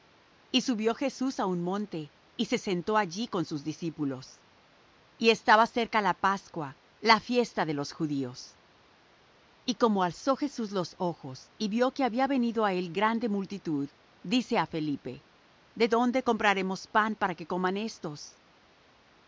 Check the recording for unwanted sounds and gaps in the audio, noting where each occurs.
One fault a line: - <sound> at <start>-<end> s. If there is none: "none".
none